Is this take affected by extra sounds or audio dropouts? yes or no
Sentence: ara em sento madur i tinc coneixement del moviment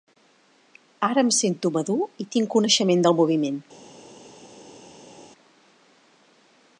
no